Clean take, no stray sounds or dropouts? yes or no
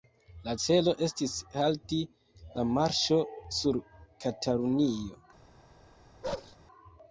no